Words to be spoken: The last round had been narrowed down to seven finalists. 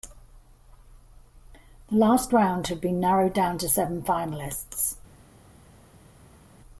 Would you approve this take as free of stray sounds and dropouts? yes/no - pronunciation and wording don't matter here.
yes